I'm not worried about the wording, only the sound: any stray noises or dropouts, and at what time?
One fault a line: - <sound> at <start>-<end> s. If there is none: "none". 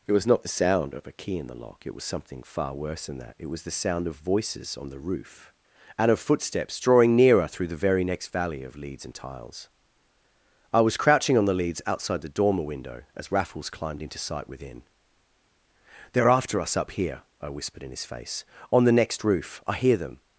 none